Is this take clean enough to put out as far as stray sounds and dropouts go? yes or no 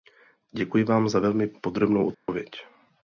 no